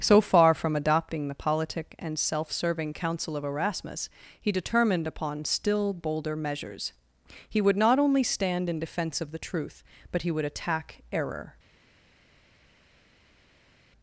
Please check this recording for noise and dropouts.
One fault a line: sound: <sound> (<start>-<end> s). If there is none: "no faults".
no faults